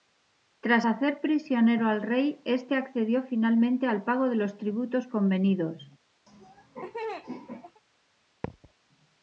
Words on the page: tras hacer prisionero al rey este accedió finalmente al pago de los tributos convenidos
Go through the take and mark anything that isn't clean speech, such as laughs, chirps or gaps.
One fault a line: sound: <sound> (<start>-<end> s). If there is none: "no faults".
sound: laugh (6.3-7.8 s)
sound: thud (8.4-8.7 s)